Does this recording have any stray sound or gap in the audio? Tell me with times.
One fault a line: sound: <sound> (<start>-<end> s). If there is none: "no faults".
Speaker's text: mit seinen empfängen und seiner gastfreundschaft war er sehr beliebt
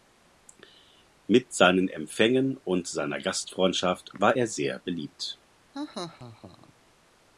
sound: laugh (5.7-6.7 s)